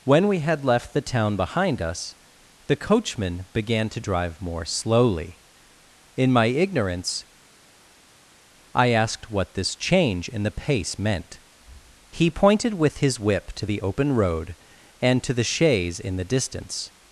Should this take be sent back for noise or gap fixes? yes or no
no